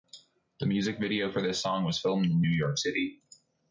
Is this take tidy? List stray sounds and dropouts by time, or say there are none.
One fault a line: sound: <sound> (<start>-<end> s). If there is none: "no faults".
no faults